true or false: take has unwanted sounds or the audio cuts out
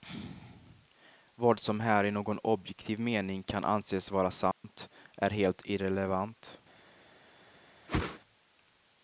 true